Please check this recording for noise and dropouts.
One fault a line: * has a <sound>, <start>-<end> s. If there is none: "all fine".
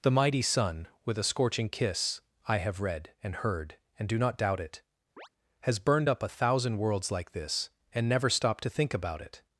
* has a chirp, 5.2-5.3 s